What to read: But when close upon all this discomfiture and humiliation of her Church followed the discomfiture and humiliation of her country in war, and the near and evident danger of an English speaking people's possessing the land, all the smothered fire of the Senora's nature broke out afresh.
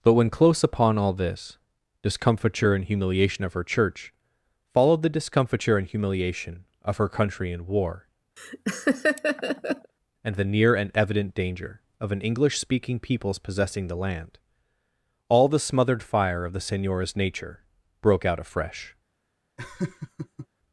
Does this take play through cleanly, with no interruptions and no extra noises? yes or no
no